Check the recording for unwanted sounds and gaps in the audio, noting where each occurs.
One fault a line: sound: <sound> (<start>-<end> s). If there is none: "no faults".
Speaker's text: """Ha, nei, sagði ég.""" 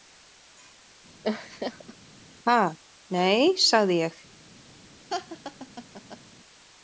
sound: laugh (1.2-1.9 s)
sound: laugh (5.1-6.2 s)